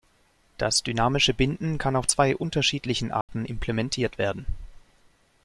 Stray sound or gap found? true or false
true